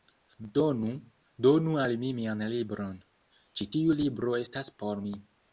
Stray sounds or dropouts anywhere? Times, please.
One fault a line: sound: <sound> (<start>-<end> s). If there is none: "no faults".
no faults